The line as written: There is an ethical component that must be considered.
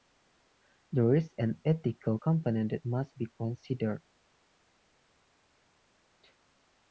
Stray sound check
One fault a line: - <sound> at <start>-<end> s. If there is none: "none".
none